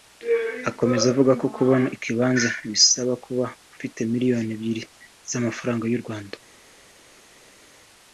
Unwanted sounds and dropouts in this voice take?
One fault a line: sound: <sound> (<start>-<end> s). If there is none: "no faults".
no faults